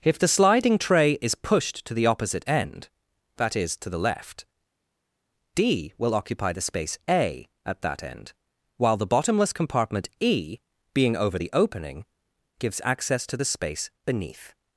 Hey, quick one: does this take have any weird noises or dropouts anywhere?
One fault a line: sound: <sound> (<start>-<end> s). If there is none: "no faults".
no faults